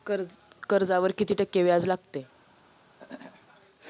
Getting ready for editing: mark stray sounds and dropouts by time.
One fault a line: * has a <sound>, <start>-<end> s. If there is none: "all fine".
* has a throat clearing, 3.0-3.5 s